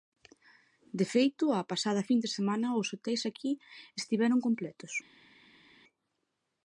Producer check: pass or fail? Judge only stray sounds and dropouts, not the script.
pass